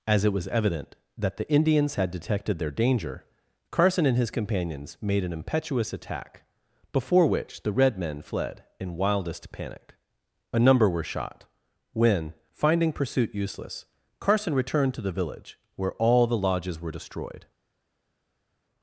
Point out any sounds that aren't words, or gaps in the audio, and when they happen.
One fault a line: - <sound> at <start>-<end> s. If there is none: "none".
none